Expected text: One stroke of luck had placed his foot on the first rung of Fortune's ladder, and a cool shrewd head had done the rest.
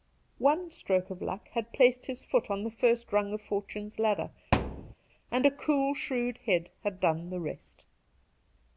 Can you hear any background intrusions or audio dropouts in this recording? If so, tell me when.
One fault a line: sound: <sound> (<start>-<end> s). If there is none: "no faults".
sound: thud (4.5-4.9 s)